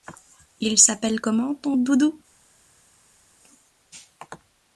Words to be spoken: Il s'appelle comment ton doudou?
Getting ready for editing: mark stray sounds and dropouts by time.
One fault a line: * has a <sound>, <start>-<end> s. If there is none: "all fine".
all fine